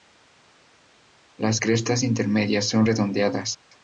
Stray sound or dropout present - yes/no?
no